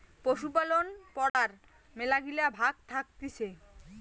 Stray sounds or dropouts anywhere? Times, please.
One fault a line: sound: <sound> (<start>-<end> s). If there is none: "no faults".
sound: dropout (1.3-1.3 s)